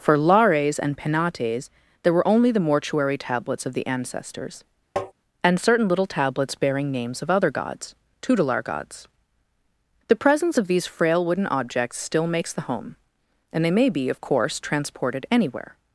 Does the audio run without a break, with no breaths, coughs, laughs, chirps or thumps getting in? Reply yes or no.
no